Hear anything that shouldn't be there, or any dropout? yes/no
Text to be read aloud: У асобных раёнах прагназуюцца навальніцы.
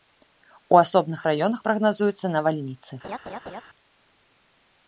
yes